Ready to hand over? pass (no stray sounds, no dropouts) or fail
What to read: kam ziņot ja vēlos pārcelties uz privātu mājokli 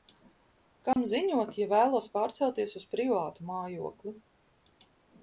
fail